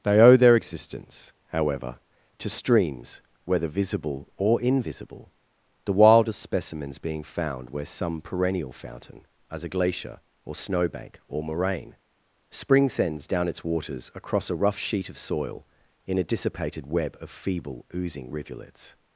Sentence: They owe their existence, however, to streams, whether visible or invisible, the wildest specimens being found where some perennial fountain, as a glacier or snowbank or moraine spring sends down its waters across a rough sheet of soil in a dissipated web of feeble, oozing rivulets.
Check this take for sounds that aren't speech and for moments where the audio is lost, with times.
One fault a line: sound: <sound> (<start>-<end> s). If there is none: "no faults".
no faults